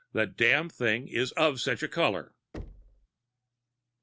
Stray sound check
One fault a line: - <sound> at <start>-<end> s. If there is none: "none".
- thud at 2.5-3.1 s